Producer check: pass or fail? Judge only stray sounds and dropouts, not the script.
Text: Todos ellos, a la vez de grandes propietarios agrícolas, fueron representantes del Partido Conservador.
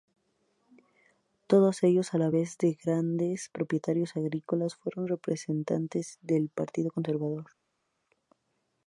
pass